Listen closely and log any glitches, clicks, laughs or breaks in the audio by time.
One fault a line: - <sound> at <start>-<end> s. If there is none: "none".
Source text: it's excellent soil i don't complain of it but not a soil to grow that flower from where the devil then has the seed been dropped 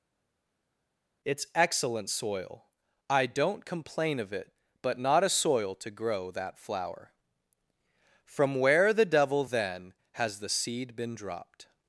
none